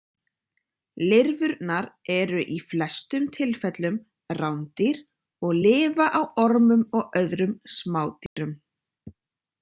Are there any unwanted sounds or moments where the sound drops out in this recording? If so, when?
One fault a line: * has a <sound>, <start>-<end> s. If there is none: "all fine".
* has a dropout, 8.3-8.4 s